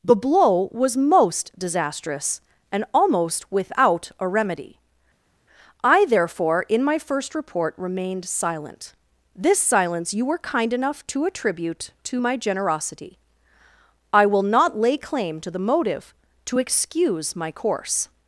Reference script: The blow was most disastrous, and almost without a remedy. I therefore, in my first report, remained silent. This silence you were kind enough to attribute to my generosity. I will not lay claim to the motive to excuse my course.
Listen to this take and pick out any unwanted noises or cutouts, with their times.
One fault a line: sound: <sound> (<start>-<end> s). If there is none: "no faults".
no faults